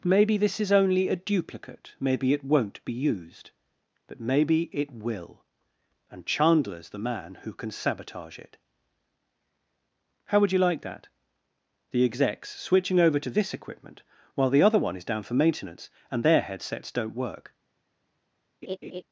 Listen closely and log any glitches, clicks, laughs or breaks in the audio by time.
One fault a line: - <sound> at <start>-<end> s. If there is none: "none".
- laugh at 18.6-19.0 s